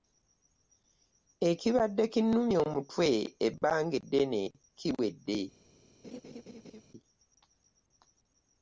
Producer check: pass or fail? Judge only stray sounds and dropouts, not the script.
fail